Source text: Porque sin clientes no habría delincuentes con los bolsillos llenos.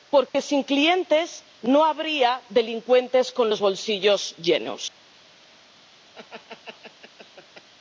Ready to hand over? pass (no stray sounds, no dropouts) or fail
fail